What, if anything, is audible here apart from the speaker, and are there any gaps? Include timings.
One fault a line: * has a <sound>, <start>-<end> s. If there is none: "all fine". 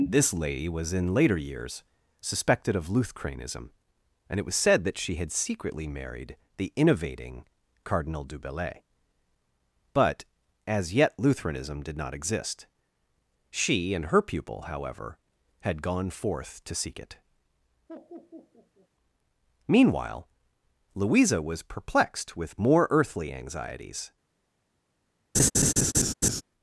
* has a laugh, 17.9-18.9 s
* has a laugh, 25.3-26.4 s